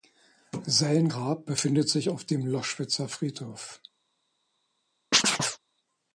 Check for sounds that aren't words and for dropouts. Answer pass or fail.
fail